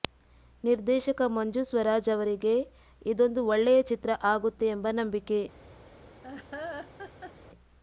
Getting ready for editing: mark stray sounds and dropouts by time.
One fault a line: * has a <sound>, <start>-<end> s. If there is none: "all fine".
* has a laugh, 6.2-7.3 s